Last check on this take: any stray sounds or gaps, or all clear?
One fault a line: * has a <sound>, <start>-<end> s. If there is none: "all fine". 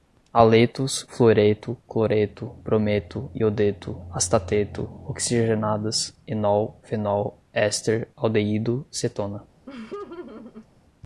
* has a laugh, 9.7-10.7 s